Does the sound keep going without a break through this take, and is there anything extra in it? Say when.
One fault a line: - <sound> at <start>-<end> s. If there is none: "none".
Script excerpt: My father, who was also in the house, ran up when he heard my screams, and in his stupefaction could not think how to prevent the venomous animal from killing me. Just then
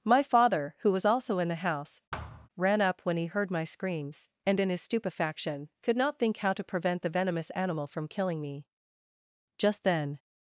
- thud at 2.1-2.5 s